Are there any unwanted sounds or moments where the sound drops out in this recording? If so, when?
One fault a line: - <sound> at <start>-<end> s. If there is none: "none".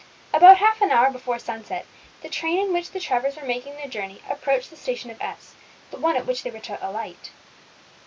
none